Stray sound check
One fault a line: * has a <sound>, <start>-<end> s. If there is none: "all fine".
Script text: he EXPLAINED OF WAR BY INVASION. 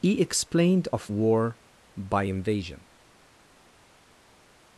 all fine